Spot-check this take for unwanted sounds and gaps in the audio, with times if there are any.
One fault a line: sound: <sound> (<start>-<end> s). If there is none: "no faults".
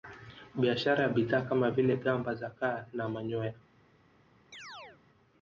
sound: chirp (4.5-5.0 s)